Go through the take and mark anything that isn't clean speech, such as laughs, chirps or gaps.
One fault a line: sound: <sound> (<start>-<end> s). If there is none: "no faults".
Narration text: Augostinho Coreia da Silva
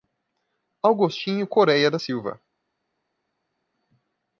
no faults